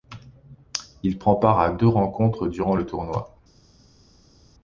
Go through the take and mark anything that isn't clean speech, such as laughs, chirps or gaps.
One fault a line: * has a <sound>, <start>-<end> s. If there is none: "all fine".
all fine